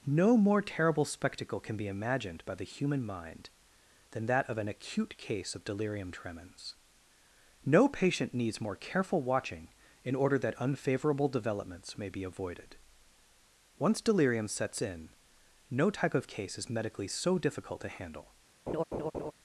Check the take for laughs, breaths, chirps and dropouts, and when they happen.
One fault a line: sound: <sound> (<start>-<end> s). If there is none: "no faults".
sound: laugh (18.7-19.3 s)